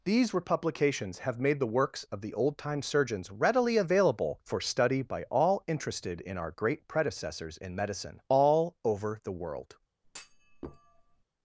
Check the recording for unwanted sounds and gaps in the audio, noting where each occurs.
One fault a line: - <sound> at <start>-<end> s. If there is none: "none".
- thud at 10.0-11.2 s